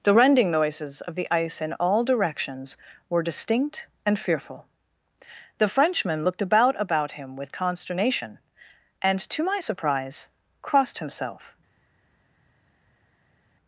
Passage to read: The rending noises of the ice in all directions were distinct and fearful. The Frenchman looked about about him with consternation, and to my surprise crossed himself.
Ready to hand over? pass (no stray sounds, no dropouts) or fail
pass